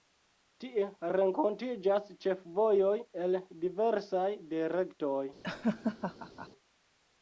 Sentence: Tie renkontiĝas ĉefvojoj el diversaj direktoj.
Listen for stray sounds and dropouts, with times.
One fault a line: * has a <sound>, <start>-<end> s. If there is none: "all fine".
* has a laugh, 5.4-6.5 s